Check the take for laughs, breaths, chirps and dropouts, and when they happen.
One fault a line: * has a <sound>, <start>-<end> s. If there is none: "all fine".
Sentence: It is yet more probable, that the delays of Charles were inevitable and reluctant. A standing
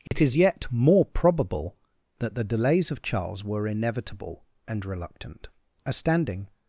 * has a dropout, 0.1-0.1 s